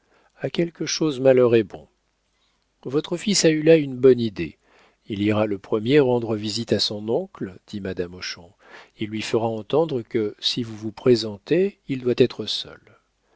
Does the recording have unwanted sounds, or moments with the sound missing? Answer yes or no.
no